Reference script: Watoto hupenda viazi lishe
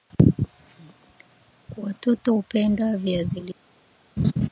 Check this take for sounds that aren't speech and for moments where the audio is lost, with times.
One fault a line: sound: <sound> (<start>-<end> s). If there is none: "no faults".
sound: laugh (4.2-4.5 s)